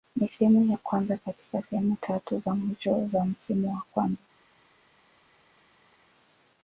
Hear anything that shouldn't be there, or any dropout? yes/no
no